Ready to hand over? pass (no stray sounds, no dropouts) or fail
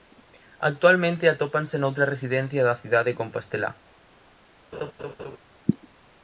fail